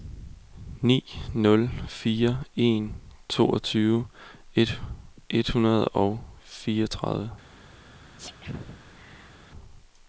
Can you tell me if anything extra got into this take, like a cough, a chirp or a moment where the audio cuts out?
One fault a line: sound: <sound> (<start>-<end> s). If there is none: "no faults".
sound: sneeze (8.2-9.3 s)